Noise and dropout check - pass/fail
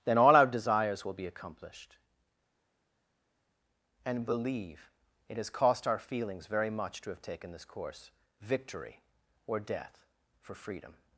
pass